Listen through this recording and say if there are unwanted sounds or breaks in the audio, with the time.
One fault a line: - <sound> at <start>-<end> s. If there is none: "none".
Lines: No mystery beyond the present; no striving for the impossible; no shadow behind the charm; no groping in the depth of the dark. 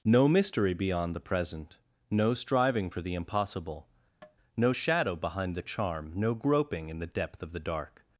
- tap at 4.2-4.4 s